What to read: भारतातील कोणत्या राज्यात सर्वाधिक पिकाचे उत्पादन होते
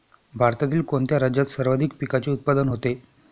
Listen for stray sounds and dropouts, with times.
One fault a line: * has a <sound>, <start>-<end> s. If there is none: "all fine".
all fine